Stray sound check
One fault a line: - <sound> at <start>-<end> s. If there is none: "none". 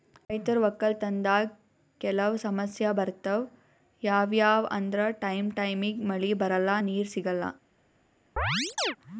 - chirp at 8.4-9.0 s